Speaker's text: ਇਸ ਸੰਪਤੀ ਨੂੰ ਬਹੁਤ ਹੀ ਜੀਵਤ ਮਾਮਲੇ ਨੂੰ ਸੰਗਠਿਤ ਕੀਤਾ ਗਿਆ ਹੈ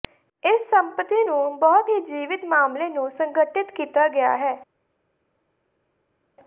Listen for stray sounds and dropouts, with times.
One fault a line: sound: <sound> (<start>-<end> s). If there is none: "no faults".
no faults